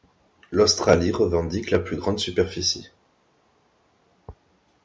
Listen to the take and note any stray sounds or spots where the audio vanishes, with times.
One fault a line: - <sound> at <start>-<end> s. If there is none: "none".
none